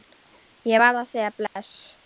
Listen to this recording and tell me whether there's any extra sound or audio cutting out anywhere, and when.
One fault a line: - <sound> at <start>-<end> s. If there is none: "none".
- dropout at 1.5-1.6 s